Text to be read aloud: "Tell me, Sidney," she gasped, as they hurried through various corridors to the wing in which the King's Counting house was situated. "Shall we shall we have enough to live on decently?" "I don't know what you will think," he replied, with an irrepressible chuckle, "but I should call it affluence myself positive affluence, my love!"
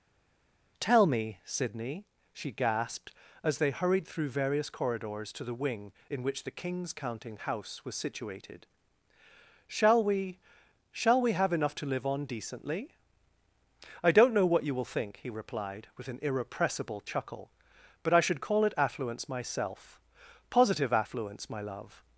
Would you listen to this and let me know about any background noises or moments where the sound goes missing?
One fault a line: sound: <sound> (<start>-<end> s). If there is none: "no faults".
no faults